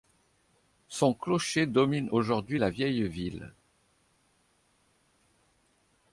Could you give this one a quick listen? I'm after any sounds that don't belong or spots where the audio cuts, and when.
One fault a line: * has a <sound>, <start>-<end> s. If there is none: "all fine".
all fine